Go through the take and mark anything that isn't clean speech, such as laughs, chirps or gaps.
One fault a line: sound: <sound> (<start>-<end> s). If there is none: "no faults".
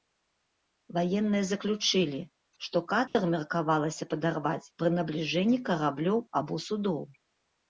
sound: dropout (3.1-3.2 s)